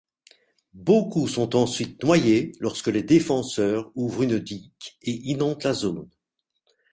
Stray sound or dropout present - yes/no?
no